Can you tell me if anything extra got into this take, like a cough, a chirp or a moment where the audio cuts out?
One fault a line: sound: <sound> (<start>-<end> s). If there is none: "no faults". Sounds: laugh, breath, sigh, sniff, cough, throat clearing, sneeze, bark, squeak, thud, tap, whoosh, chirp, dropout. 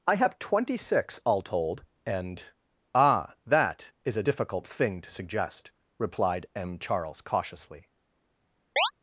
sound: chirp (8.8-8.9 s)